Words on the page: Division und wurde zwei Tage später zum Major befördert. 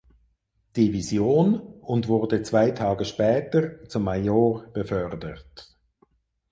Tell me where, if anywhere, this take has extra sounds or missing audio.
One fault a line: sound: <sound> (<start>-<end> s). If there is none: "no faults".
no faults